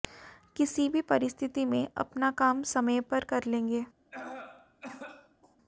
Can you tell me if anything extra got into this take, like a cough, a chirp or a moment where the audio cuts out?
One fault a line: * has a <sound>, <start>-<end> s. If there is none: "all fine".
* has a cough, 4.1-5.6 s